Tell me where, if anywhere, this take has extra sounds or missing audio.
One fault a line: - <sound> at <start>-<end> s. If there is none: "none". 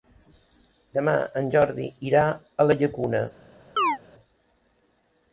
- chirp at 3.8-4.0 s